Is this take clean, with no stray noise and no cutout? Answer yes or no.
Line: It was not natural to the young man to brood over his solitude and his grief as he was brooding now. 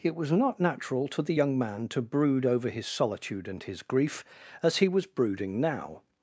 yes